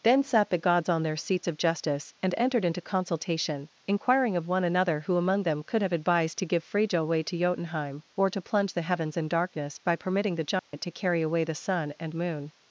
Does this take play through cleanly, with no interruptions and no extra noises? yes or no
no